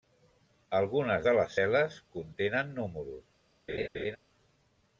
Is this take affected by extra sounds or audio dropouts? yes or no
yes